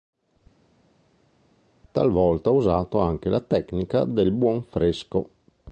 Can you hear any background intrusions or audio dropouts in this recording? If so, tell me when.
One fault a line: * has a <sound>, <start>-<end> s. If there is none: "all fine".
all fine